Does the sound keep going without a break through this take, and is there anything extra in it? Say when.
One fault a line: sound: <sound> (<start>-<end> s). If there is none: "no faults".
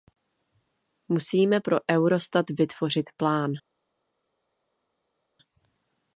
no faults